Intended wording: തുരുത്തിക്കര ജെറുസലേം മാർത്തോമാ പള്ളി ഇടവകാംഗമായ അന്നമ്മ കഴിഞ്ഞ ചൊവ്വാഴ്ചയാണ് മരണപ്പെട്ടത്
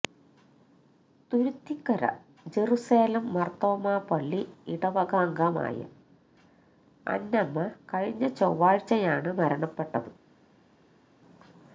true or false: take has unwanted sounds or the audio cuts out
false